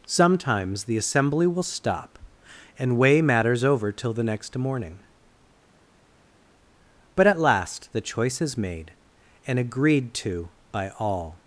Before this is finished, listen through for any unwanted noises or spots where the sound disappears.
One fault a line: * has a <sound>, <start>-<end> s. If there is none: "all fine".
all fine